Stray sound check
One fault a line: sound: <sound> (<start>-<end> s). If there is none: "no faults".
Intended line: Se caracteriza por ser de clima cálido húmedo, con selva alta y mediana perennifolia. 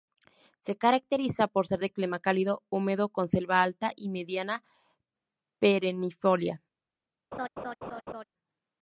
sound: laugh (7.3-8.2 s)